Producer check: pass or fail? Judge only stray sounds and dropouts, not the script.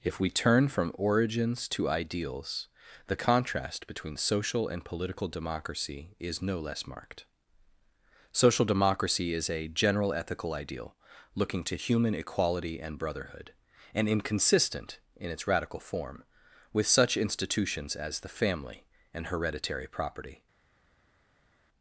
pass